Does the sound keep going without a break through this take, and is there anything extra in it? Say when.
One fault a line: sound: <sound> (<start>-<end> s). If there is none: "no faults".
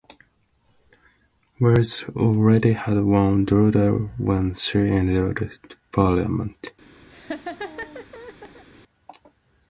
sound: laugh (7.1-8.6 s)